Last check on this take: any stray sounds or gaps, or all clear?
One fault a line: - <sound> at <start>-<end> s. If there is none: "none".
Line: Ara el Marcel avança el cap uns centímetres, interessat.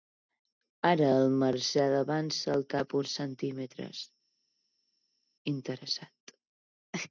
none